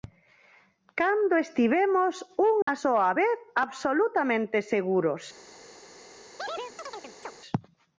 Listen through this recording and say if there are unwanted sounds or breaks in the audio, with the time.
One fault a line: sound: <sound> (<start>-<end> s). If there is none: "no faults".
sound: dropout (2.6-2.7 s)
sound: chirp (6.4-7.3 s)